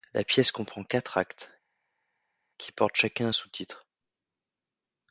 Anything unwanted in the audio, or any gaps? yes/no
no